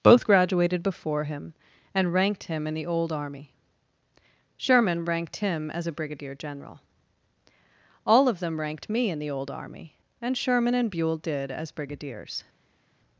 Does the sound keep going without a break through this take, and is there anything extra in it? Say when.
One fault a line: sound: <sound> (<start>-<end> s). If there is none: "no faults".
no faults